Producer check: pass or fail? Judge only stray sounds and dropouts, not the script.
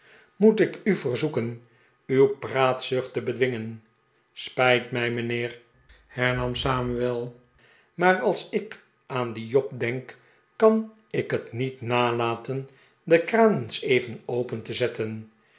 pass